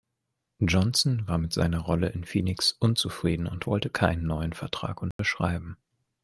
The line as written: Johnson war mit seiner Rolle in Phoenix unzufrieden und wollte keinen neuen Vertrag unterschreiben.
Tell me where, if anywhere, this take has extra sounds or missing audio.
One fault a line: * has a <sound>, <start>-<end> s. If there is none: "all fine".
* has a dropout, 5.1-5.2 s